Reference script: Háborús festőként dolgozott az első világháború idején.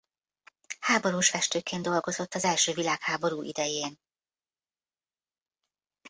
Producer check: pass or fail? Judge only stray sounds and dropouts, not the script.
pass